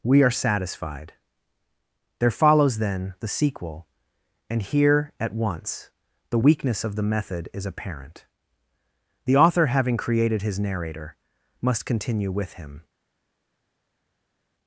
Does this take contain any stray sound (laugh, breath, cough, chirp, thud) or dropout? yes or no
no